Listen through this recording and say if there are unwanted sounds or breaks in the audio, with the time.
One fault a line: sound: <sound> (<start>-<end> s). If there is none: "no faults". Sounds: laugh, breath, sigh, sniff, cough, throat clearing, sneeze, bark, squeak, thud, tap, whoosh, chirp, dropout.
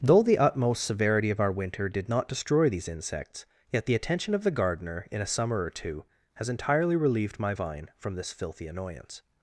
no faults